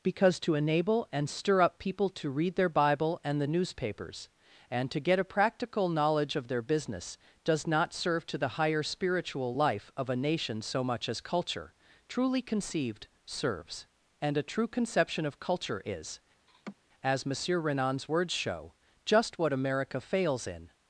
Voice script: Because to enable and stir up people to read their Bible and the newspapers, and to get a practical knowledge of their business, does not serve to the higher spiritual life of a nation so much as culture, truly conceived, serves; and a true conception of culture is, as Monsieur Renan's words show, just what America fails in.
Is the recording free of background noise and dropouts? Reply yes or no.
no